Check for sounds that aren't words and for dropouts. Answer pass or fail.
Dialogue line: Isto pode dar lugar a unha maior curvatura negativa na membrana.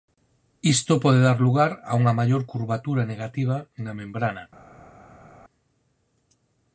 pass